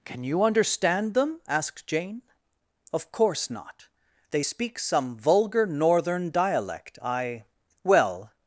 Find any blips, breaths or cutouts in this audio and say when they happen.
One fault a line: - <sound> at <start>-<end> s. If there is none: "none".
none